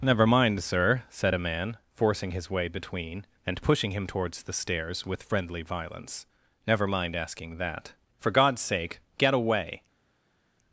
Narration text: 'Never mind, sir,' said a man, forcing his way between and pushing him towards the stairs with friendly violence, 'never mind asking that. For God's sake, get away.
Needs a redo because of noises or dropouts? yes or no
no